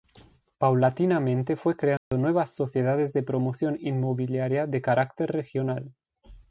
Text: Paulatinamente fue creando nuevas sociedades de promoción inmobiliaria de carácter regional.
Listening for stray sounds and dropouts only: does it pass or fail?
fail